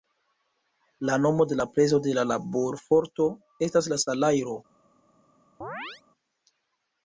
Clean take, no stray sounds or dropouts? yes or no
no